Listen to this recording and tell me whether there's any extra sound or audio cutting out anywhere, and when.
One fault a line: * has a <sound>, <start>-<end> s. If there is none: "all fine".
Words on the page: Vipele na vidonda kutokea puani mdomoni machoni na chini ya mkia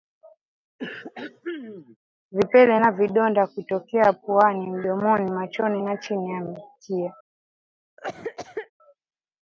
* has a throat clearing, 0.8-2.0 s
* has a cough, 8.0-8.7 s